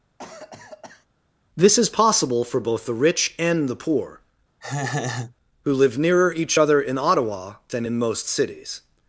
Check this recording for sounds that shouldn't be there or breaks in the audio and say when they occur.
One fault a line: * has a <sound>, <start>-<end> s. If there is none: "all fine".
* has a cough, 0.2-1.1 s
* has a laugh, 4.6-5.4 s